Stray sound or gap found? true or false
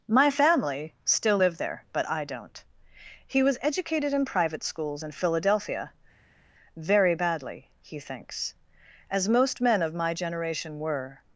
false